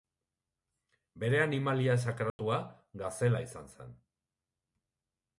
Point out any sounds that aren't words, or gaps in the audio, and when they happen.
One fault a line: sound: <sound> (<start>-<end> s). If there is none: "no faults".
sound: dropout (2.3-2.4 s)